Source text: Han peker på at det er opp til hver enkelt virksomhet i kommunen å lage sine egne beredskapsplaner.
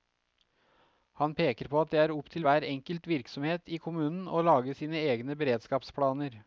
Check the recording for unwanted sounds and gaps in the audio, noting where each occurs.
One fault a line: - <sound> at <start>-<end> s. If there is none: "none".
none